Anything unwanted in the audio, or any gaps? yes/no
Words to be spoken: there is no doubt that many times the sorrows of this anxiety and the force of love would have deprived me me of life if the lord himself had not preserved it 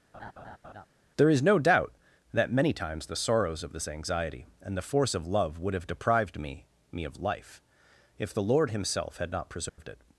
yes